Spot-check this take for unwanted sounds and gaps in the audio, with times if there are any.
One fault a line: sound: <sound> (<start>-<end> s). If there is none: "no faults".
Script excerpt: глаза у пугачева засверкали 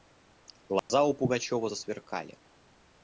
sound: dropout (0.8-0.9 s)